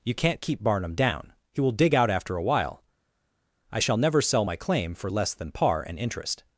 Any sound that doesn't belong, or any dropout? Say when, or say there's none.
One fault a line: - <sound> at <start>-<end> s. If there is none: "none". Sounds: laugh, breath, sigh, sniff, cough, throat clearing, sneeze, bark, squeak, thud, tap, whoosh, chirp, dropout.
none